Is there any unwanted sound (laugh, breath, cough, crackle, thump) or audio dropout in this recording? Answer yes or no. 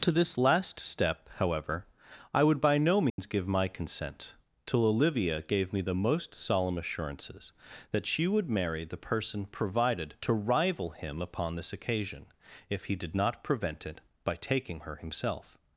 yes